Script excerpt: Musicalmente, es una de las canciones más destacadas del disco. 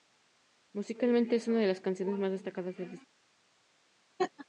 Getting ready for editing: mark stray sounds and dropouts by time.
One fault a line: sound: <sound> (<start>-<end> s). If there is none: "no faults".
sound: laugh (4.2-4.5 s)